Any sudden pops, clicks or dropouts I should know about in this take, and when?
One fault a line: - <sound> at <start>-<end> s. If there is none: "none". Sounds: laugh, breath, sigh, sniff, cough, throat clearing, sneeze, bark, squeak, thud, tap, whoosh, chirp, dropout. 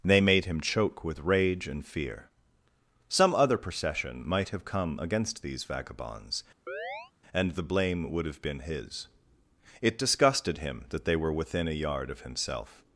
- chirp at 6.7-7.1 s